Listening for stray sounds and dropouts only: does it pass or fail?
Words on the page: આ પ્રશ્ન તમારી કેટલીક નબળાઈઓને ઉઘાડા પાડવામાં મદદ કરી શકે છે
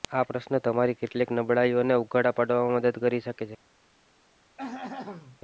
fail